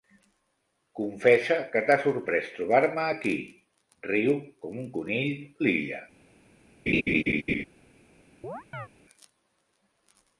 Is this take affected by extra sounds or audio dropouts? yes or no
yes